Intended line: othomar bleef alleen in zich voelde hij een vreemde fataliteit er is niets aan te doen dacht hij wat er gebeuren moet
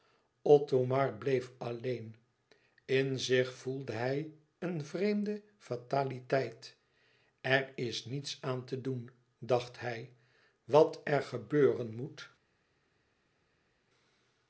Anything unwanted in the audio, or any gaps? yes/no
no